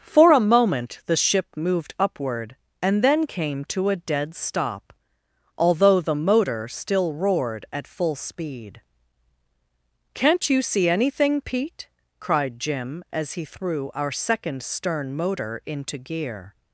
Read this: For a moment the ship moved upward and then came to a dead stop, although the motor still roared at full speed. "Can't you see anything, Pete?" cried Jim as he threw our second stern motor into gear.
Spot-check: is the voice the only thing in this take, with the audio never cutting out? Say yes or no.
yes